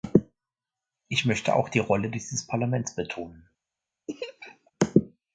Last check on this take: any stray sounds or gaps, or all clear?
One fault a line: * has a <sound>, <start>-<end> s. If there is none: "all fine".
* has a laugh, 4.1-4.7 s